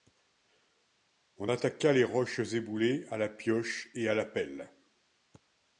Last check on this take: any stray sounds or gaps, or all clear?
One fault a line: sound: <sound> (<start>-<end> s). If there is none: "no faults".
no faults